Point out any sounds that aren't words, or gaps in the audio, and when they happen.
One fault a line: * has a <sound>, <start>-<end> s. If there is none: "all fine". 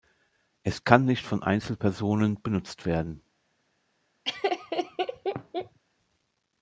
* has a laugh, 4.2-5.8 s